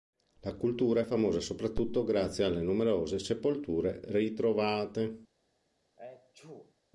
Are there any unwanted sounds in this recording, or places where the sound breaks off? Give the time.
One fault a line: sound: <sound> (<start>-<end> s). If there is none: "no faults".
sound: sneeze (6.0-6.8 s)